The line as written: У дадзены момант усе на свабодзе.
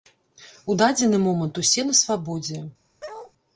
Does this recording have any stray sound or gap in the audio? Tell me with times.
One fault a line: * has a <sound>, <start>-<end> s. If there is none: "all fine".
* has a bark, 3.0-3.3 s